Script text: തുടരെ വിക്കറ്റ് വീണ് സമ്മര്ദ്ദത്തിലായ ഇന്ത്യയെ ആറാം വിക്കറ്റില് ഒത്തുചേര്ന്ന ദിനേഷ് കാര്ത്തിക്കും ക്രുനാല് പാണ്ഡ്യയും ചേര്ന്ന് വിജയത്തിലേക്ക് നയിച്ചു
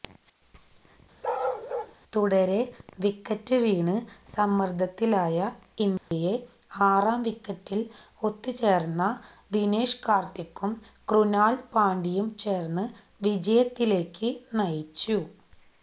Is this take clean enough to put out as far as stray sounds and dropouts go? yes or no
no